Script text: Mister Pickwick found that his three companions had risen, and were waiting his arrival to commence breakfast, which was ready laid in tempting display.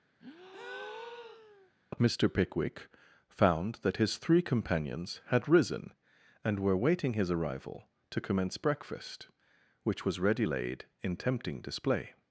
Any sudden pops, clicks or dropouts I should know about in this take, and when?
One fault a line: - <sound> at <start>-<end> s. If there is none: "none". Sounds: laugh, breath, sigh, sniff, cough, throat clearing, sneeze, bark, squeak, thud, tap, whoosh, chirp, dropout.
- breath at 0.2-1.7 s